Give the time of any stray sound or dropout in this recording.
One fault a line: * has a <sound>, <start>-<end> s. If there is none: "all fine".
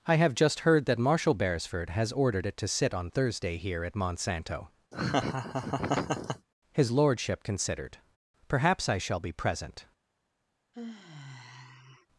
* has a laugh, 4.9-6.5 s
* has a sigh, 10.7-12.1 s